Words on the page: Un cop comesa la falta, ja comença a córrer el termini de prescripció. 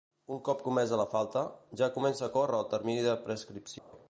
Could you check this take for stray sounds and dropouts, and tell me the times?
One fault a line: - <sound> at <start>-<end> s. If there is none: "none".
- dropout at 3.8-3.9 s